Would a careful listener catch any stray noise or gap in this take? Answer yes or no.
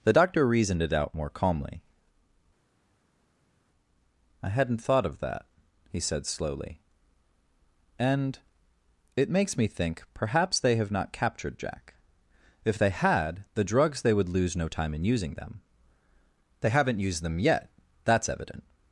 no